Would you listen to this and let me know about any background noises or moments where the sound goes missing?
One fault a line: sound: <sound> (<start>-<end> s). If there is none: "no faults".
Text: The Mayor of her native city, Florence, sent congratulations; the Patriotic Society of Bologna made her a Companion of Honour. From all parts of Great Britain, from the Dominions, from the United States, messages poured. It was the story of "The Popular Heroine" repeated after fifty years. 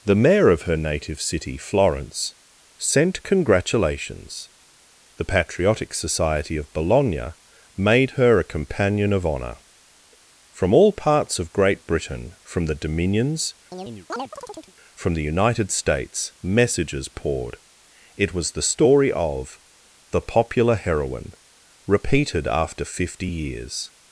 sound: chirp (13.7-14.7 s)